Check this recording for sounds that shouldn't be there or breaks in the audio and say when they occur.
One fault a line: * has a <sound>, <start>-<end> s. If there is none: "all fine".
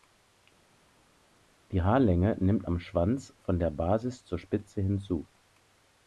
all fine